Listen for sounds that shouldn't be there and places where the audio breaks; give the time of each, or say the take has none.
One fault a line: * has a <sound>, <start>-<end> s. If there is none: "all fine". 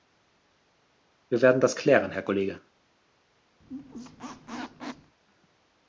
* has a squeak, 3.6-5.2 s